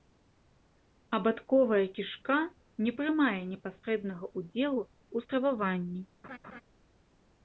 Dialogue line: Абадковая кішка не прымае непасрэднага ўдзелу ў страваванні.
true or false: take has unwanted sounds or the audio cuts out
true